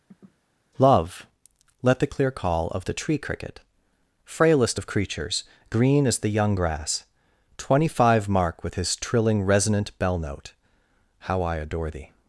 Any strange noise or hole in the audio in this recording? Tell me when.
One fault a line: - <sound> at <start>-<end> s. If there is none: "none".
- sniff at 0.1-0.4 s